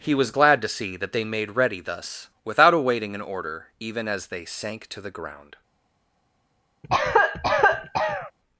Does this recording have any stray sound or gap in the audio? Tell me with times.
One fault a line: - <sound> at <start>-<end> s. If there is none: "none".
- cough at 6.8-8.3 s